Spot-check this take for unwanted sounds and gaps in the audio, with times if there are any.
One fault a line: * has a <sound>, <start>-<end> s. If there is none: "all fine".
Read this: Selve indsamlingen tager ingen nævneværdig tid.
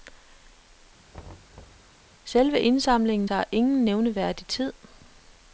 * has a thud, 1.1-1.9 s